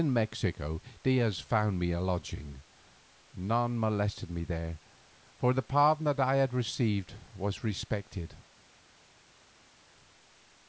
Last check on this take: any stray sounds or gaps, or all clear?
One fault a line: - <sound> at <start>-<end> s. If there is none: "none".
none